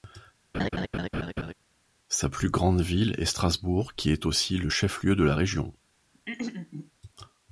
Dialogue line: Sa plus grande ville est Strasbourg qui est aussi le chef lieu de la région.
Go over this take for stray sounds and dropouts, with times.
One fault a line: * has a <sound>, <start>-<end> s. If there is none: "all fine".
* has a laugh, 0.5-1.5 s
* has a throat clearing, 6.1-6.9 s